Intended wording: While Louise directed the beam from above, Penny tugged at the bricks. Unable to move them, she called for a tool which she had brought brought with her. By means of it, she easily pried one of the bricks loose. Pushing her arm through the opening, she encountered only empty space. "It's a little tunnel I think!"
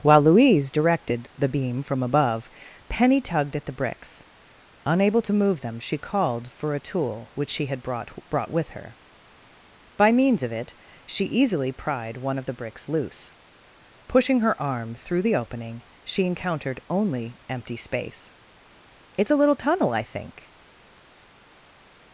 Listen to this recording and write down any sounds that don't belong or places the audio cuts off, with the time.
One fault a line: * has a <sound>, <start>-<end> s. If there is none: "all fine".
all fine